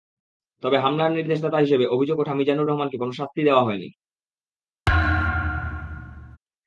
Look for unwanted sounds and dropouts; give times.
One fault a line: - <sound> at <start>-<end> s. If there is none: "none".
- thud at 4.9-6.4 s